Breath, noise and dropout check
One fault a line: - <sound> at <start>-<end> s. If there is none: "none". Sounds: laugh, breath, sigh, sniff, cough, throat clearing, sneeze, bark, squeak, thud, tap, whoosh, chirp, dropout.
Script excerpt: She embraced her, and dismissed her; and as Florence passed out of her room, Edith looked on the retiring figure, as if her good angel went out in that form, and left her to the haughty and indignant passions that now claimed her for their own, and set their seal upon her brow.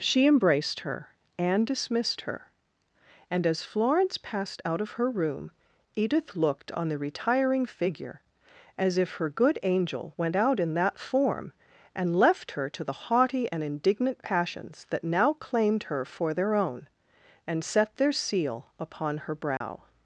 - dropout at 19.6-19.6 s